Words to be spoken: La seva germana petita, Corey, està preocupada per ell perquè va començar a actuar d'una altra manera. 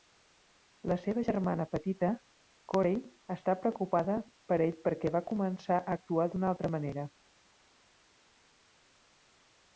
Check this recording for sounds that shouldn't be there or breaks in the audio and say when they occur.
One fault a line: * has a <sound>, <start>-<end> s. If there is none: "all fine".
all fine